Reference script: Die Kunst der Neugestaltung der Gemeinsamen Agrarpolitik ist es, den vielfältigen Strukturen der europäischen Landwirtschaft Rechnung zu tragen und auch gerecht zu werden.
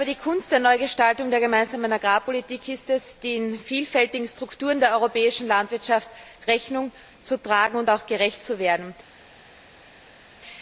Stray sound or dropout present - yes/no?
no